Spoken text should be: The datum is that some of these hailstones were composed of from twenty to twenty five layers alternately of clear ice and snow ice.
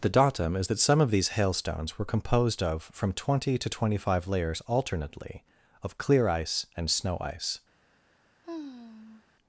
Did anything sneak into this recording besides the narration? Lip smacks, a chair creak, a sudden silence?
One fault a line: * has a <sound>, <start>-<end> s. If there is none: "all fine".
* has a sigh, 8.4-9.2 s